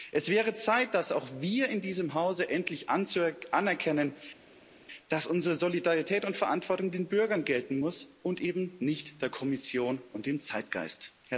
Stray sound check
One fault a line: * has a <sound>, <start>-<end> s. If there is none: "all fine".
all fine